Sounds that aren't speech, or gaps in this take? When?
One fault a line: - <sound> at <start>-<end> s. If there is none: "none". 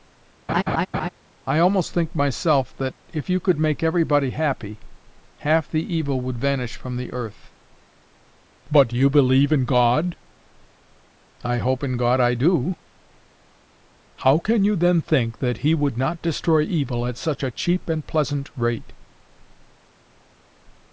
- laugh at 0.5-1.1 s